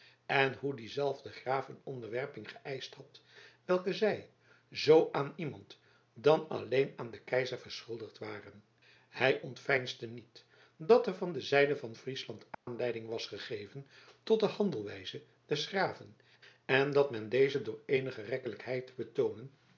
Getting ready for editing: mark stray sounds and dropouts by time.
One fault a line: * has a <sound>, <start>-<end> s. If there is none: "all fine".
* has a dropout, 12.5-12.7 s